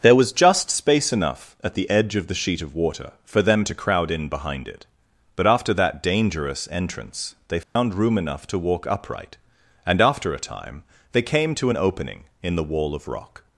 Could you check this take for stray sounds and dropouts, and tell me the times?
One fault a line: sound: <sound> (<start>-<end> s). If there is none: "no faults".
sound: dropout (7.6-7.8 s)